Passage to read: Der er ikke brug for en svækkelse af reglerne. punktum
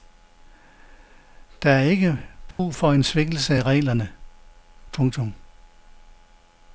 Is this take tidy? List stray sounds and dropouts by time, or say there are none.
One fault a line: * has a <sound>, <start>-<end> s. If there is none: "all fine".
* has a dropout, 2.5-2.6 s